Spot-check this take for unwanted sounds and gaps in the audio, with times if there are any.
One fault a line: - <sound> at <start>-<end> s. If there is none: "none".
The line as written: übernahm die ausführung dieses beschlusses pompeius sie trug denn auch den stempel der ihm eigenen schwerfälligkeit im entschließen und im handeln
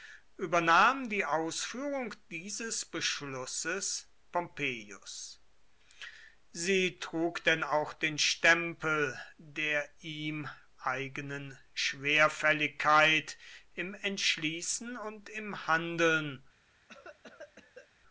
- cough at 16.9-17.9 s